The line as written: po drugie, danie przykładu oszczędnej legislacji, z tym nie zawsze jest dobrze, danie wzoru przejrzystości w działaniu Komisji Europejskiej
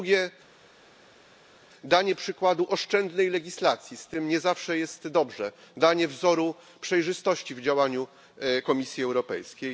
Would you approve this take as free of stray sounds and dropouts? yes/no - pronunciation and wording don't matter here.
yes